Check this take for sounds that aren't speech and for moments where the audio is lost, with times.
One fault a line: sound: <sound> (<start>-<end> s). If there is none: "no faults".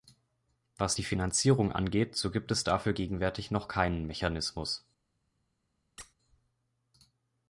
sound: squeak (6.0-6.1 s)